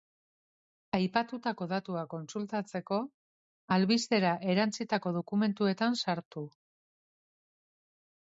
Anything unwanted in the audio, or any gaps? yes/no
no